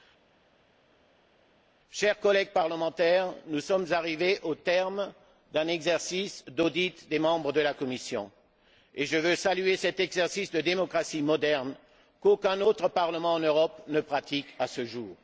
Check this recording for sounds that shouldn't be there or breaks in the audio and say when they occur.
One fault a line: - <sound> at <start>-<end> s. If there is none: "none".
none